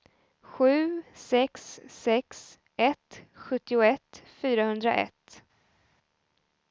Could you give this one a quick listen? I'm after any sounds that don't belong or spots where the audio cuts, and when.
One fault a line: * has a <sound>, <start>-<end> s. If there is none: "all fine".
all fine